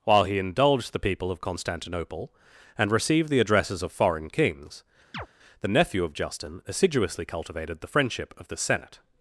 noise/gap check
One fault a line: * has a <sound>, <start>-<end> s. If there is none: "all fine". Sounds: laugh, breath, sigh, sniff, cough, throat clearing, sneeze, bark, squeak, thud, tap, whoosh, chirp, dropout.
* has a chirp, 5.1-5.3 s